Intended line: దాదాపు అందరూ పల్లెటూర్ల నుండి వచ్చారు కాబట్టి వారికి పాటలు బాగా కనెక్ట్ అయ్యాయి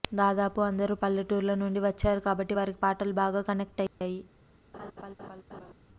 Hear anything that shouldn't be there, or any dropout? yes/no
yes